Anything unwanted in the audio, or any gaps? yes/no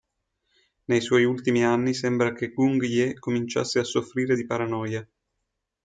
no